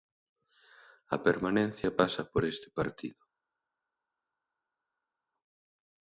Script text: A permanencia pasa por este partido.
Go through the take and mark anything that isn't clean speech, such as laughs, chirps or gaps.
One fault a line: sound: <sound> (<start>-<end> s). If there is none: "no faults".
no faults